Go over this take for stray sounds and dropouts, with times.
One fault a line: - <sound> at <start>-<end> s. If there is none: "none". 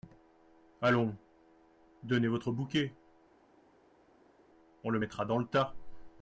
none